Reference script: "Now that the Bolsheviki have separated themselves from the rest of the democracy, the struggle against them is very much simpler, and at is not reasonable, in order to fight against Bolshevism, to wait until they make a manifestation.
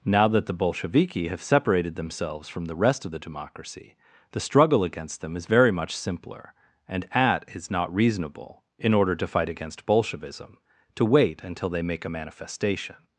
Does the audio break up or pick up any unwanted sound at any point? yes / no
no